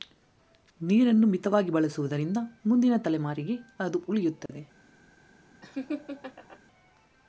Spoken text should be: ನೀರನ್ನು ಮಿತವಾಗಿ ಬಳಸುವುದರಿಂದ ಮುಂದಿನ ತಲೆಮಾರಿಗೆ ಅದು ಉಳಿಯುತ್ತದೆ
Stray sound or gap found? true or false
true